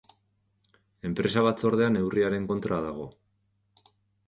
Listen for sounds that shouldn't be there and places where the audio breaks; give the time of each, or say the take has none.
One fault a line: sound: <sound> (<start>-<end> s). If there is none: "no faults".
no faults